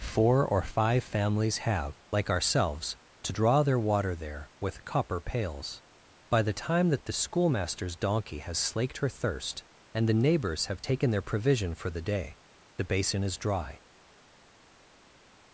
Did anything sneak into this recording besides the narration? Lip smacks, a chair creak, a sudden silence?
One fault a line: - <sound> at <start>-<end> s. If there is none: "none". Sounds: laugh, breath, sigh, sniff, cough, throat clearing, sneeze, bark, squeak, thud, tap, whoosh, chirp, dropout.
none